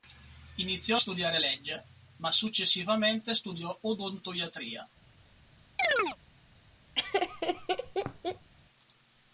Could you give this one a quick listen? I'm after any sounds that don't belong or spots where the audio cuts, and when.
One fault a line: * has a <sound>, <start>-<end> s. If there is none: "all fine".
* has a chirp, 5.8-6.2 s
* has a laugh, 6.9-8.5 s